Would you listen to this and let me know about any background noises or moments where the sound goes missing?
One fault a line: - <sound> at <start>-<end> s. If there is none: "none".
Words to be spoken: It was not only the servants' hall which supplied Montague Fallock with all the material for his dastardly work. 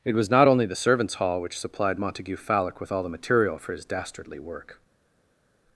none